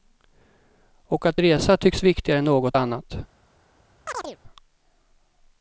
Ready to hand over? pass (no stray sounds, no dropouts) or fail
fail